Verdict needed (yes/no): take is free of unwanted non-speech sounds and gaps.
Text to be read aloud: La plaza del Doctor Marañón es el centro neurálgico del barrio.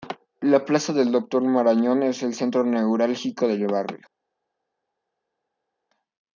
yes